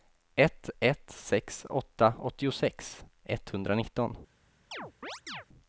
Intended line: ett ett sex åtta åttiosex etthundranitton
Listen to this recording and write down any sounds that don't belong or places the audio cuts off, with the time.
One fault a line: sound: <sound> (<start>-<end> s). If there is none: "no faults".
sound: chirp (4.7-5.5 s)